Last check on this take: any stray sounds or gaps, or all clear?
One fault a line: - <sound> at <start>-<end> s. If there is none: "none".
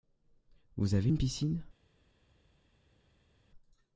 none